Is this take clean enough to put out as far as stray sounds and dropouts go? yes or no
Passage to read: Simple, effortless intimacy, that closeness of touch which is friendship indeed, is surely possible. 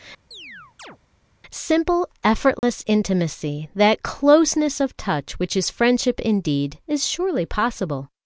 no